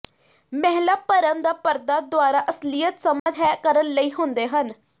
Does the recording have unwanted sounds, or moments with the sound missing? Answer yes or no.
yes